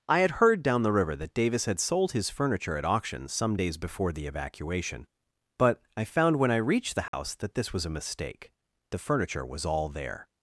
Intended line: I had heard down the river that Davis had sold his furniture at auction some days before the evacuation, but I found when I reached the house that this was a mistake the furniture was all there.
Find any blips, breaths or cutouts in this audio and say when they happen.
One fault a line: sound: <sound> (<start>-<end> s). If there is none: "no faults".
sound: dropout (7.1-7.1 s)